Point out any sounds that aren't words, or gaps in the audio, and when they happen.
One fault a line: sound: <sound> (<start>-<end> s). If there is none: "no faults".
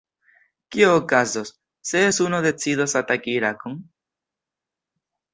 no faults